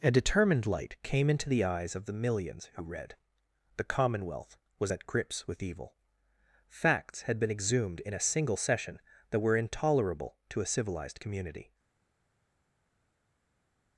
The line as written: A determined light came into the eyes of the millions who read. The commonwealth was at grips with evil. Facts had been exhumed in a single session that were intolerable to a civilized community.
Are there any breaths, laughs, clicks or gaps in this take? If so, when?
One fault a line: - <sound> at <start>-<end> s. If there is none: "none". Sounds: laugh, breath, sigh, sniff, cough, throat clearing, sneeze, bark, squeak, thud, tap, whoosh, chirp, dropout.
none